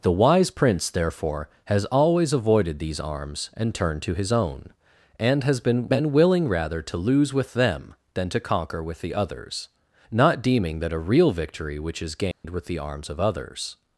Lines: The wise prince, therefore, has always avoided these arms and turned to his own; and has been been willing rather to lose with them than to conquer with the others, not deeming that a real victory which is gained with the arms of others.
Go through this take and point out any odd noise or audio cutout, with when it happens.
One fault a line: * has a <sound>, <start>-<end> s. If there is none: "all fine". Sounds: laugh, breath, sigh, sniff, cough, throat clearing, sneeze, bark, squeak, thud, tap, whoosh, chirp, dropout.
* has a dropout, 12.3-12.4 s